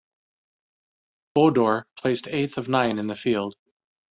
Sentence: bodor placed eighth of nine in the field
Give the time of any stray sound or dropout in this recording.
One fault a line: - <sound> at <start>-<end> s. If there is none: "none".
none